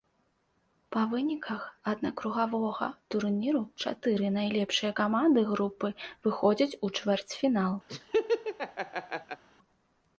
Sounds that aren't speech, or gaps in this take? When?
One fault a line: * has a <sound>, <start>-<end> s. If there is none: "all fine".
* has a laugh, 7.9-9.4 s